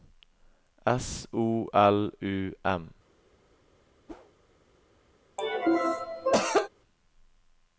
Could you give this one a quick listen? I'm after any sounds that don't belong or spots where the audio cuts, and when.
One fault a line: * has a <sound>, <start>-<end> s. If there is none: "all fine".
* has a whoosh, 4.1-4.3 s
* has a cough, 5.4-6.7 s